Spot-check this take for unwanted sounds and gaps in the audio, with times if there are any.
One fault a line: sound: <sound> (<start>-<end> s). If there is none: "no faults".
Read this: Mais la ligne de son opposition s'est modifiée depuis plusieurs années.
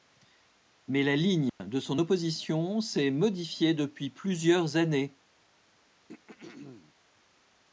sound: dropout (1.5-1.6 s)
sound: throat clearing (6.1-6.9 s)